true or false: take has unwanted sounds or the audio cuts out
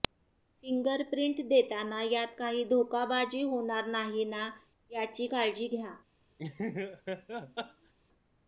true